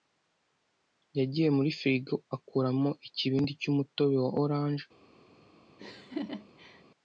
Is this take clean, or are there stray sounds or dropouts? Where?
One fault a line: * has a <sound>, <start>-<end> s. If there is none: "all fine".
* has a laugh, 5.8-6.8 s